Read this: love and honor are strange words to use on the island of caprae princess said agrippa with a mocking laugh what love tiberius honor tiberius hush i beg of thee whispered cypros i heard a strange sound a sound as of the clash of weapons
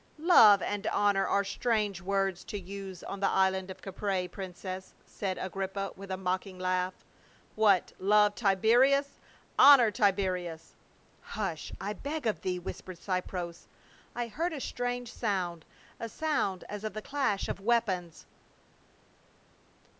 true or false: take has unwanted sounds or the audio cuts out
false